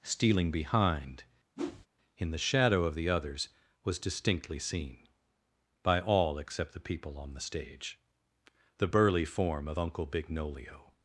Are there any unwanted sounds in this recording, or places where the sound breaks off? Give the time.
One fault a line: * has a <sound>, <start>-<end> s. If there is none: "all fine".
* has a whoosh, 1.6-1.9 s